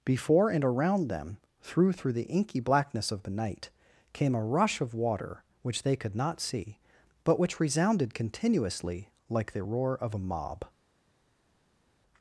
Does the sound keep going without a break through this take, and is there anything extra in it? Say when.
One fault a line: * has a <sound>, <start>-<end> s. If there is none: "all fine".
all fine